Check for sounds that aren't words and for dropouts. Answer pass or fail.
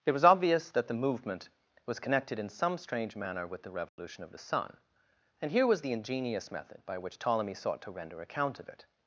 fail